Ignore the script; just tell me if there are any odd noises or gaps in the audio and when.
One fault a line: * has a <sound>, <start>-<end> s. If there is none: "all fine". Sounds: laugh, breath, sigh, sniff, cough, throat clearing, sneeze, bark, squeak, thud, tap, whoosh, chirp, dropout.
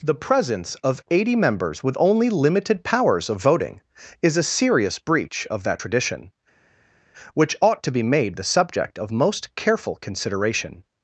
all fine